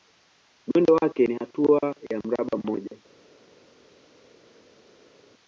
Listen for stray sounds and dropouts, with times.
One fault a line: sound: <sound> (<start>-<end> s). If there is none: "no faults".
no faults